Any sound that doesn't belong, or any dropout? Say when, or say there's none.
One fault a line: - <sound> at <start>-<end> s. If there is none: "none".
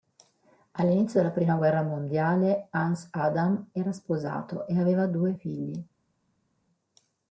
none